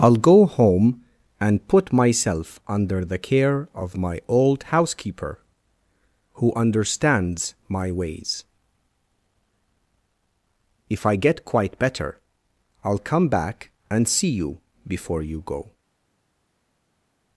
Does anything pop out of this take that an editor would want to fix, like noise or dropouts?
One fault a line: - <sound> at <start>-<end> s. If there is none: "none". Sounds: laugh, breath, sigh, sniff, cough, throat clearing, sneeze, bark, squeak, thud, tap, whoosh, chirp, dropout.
none